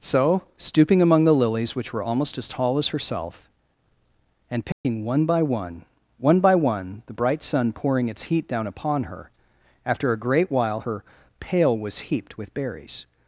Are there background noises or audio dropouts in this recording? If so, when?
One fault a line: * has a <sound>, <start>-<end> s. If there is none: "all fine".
* has a dropout, 4.7-4.8 s